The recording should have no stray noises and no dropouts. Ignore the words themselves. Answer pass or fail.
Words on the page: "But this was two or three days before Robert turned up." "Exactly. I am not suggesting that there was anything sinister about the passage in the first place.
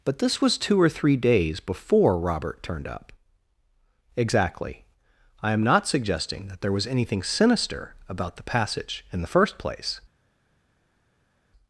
pass